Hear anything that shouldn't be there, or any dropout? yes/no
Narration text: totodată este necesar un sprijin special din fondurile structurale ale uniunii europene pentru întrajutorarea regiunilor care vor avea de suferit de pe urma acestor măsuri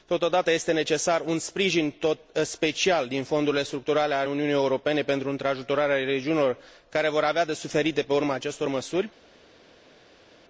no